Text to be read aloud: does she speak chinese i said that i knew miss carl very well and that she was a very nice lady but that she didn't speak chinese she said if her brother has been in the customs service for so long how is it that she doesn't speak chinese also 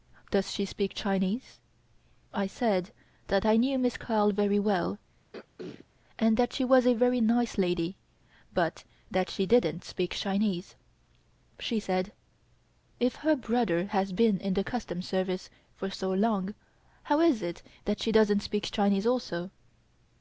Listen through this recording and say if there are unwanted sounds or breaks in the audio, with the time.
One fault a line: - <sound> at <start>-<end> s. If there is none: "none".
- throat clearing at 5.3-5.9 s